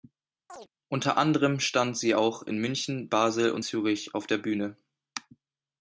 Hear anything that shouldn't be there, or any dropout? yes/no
yes